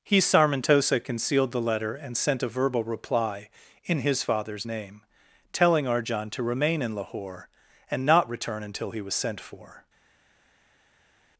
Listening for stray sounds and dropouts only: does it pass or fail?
pass